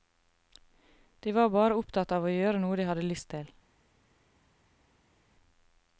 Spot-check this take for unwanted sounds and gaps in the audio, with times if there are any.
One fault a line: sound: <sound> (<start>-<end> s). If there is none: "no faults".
no faults